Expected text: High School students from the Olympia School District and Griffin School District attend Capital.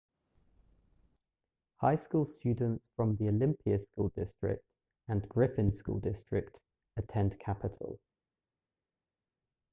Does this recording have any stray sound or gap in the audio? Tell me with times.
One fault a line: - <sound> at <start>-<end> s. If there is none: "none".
none